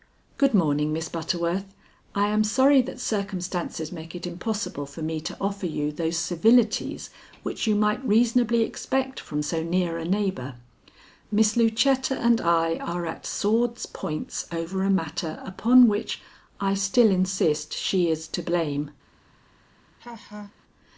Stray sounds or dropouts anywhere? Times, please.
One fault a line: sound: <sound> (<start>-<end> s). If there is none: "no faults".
sound: laugh (20.0-20.5 s)